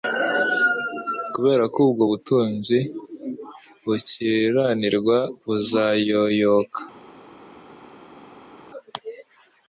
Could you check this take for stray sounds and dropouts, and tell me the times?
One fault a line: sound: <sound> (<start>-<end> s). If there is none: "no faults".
no faults